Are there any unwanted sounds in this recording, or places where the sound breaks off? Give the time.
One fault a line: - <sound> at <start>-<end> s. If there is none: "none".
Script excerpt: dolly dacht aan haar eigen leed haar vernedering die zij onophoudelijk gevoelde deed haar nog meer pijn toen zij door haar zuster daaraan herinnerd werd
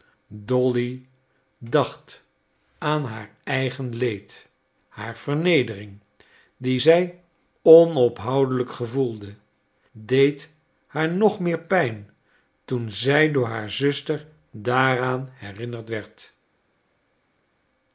none